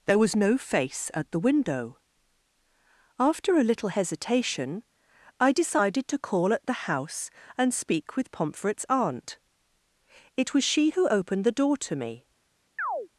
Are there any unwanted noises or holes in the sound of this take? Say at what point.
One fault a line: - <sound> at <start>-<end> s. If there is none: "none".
- chirp at 12.8-13.1 s